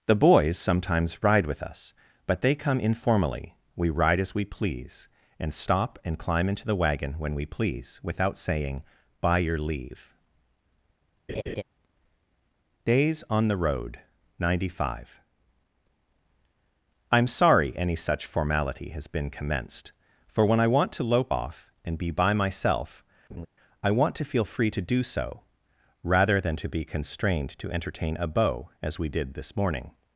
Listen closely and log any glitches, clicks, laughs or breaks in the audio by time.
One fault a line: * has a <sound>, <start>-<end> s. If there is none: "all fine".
* has a laugh, 11.3-11.6 s
* has a laugh, 23.3-23.5 s